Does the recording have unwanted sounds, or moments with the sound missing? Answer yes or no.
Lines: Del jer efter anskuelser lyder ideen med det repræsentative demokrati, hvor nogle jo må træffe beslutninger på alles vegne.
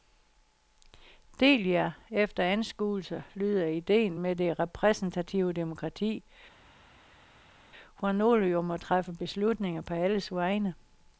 no